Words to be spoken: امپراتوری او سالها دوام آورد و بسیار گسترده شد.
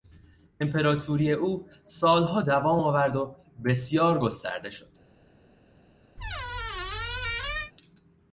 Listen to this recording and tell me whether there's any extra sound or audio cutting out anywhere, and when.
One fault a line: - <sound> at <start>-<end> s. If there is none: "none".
- squeak at 6.2-7.7 s